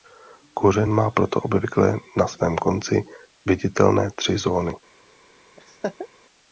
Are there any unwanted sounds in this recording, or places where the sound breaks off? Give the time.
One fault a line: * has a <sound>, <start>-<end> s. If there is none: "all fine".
* has a laugh, 5.6-6.1 s